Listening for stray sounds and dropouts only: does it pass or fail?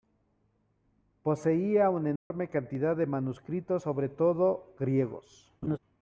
fail